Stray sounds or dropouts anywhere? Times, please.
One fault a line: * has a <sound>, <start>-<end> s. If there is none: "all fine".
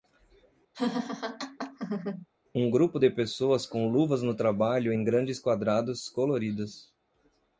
* has a laugh, 0.7-2.3 s